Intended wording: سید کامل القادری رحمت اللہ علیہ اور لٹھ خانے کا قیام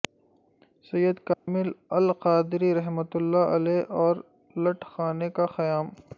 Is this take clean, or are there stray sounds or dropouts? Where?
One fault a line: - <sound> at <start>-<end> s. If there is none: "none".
- dropout at 1.3-1.5 s